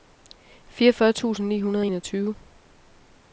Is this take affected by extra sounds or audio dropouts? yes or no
no